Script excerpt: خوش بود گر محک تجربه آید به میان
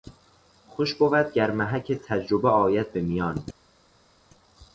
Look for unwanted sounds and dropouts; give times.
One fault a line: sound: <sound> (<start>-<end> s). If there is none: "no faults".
no faults